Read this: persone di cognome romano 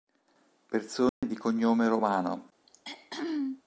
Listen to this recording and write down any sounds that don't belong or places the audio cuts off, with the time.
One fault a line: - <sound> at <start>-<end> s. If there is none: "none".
- dropout at 1.1-1.2 s
- throat clearing at 2.7-3.6 s